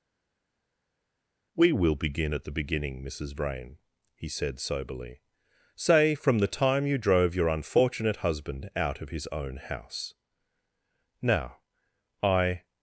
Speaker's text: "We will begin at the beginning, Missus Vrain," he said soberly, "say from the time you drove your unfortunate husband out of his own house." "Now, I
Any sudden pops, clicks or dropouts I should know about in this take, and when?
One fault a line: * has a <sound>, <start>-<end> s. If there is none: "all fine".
all fine